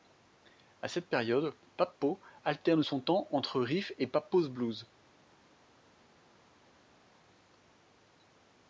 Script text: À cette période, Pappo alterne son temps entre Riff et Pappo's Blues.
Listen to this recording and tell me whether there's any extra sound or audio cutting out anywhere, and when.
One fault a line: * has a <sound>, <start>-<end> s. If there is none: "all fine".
all fine